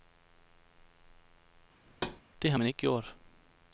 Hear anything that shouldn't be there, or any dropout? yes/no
yes